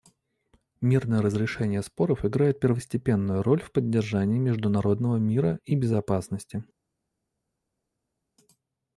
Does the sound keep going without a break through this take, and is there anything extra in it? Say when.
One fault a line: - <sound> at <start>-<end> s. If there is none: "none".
none